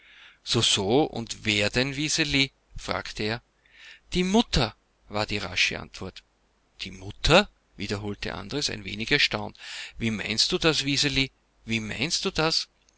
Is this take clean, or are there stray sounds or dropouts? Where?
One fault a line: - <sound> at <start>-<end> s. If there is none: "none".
none